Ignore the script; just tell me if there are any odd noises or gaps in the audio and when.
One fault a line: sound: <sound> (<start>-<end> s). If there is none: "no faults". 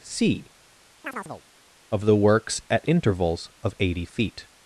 sound: chirp (1.0-1.4 s)